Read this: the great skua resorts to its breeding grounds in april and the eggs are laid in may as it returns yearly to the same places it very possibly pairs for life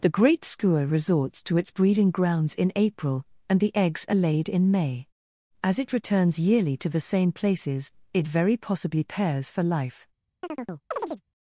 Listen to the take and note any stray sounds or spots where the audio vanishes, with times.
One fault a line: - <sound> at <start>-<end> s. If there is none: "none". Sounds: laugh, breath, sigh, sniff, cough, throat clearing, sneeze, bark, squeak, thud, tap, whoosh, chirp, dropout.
- chirp at 10.4-11.2 s